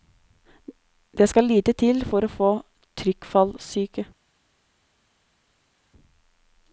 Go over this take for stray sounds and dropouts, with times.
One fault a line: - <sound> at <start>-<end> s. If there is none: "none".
none